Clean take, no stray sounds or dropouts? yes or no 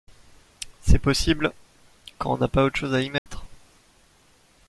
no